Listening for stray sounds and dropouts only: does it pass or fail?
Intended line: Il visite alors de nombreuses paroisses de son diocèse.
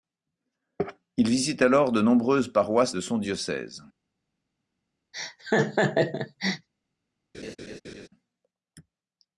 fail